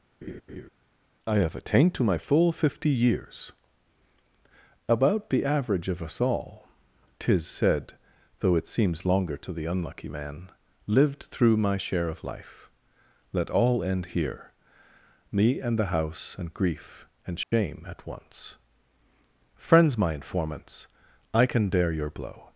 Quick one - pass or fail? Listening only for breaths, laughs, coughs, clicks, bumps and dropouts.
fail